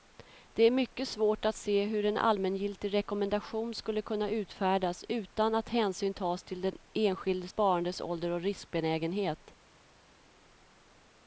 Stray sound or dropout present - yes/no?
no